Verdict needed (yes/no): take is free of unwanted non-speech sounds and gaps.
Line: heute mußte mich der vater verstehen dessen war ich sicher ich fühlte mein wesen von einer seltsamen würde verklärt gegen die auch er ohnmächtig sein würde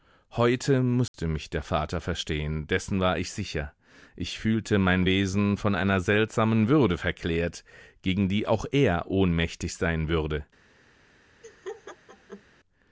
no